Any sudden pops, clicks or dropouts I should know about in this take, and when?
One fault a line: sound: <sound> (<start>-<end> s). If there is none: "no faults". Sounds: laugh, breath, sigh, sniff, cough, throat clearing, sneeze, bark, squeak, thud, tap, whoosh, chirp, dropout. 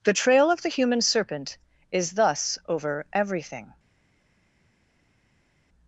no faults